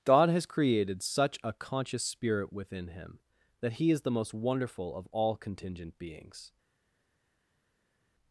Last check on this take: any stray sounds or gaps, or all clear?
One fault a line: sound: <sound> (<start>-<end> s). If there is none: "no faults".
no faults